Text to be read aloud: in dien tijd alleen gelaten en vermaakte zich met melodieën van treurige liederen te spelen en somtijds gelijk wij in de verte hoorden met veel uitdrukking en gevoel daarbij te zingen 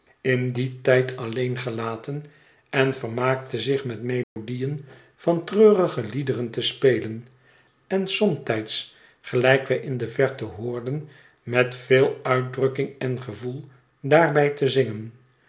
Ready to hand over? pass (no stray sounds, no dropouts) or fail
fail